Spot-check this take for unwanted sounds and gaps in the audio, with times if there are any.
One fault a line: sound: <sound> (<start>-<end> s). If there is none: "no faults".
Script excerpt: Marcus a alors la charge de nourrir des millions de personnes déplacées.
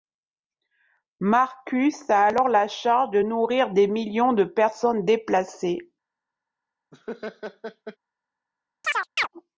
sound: laugh (6.9-8.0 s)
sound: chirp (8.8-9.3 s)